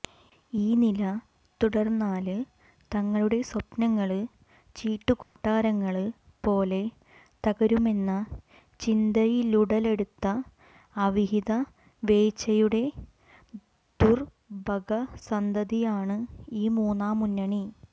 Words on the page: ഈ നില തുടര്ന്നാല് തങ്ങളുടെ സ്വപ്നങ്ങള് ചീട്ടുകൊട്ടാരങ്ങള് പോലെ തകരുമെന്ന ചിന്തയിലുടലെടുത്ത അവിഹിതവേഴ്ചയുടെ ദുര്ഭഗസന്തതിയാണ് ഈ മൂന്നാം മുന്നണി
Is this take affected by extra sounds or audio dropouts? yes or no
yes